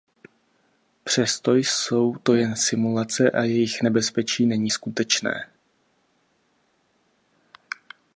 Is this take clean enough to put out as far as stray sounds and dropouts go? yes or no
yes